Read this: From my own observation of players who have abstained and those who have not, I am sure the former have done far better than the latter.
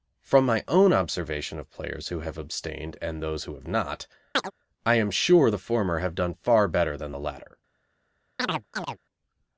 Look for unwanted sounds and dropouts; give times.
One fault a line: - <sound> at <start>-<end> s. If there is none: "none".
- chirp at 4.3-4.5 s
- chirp at 8.4-9.0 s